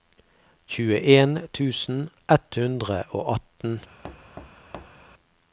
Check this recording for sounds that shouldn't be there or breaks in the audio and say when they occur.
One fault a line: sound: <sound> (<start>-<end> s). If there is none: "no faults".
sound: thud (4.0-5.1 s)